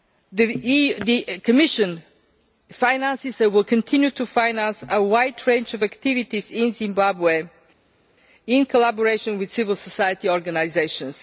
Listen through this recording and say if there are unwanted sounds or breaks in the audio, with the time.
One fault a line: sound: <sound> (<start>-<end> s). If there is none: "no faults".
no faults